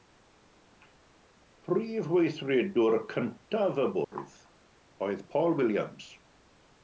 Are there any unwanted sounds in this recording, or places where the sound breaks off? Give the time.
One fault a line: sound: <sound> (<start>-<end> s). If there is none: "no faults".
sound: dropout (4.0-4.1 s)